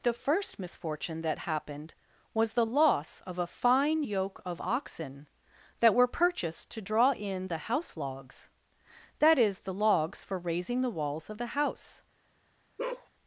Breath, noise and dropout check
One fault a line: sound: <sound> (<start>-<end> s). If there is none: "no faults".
sound: bark (12.8-13.1 s)